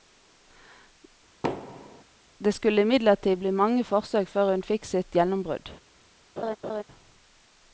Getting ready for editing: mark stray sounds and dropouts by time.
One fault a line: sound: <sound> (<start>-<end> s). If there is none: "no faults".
sound: thud (1.4-2.0 s)
sound: laugh (6.4-6.8 s)